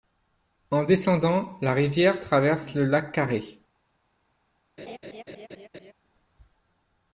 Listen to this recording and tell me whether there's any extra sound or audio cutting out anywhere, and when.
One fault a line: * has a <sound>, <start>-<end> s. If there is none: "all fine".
* has a laugh, 4.8-5.9 s